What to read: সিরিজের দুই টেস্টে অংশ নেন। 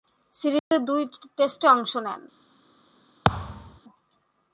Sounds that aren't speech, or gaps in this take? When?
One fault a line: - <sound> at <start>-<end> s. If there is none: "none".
- dropout at 0.6-0.7 s
- thud at 3.2-3.8 s